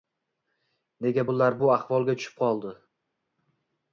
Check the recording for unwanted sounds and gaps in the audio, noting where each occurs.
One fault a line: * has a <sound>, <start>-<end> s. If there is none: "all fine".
all fine